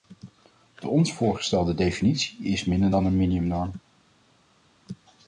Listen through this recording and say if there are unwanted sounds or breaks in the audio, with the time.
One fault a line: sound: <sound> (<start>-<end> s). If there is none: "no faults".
no faults